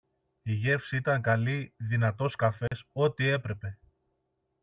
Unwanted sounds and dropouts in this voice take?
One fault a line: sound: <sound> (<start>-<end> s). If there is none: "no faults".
sound: dropout (2.7-2.7 s)